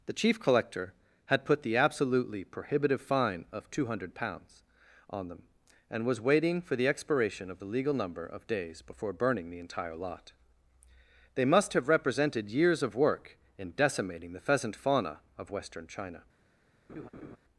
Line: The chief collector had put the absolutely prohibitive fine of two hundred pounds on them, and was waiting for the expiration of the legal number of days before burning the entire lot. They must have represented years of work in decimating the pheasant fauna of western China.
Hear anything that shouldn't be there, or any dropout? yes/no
yes